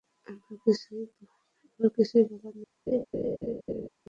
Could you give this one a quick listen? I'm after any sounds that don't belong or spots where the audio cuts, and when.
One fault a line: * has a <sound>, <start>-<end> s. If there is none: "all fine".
* has a laugh, 2.9-3.9 s